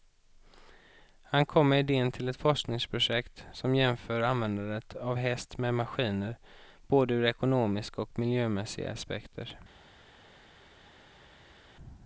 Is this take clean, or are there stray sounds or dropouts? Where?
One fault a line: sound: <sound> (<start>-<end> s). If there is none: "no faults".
no faults